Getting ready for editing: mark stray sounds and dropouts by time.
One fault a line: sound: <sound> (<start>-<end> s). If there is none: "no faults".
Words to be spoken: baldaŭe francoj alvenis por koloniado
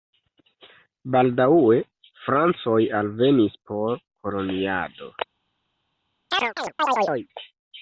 sound: chirp (6.3-7.3 s)